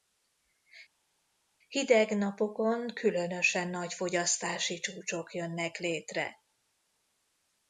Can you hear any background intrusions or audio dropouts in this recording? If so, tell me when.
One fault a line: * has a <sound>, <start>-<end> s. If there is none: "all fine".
all fine